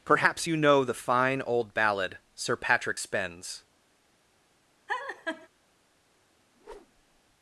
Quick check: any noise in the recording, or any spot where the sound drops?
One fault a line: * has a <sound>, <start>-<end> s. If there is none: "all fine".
* has a laugh, 4.9-5.5 s
* has a whoosh, 6.5-7.2 s